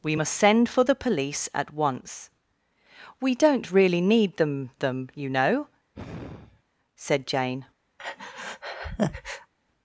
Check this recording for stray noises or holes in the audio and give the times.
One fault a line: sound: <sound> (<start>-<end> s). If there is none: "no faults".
sound: sigh (5.9-6.6 s)
sound: breath (8.0-9.5 s)